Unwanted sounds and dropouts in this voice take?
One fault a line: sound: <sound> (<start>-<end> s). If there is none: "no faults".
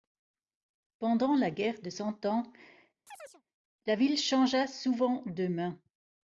sound: chirp (3.1-3.4 s)